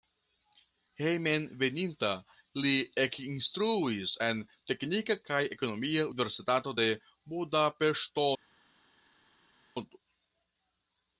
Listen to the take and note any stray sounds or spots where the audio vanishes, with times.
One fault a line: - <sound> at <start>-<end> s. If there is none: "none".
none